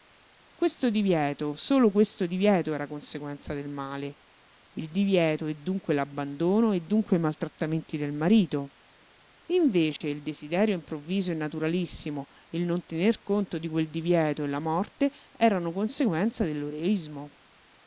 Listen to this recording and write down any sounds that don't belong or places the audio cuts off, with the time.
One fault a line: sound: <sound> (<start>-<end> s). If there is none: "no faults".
sound: dropout (10.0-10.0 s)